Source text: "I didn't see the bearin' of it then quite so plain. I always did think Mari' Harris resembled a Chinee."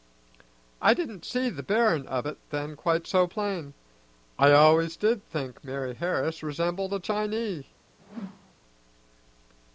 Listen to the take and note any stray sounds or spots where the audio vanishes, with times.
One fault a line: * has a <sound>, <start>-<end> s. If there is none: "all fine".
* has a whoosh, 8.0-8.5 s